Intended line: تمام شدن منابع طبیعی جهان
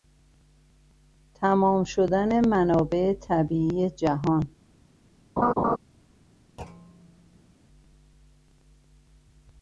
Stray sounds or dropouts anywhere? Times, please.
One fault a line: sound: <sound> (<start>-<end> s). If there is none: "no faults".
sound: laugh (5.4-5.8 s)
sound: thud (6.6-7.5 s)